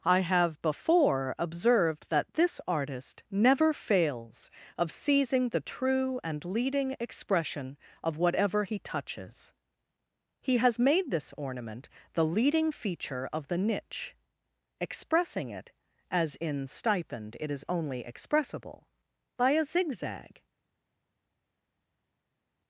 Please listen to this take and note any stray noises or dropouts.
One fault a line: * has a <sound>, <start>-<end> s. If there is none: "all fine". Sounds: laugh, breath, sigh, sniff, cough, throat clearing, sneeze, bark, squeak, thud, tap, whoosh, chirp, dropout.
all fine